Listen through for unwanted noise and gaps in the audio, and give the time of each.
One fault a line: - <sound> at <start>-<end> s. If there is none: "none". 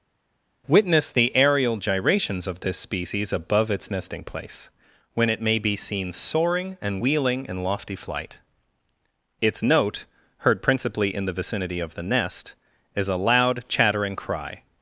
none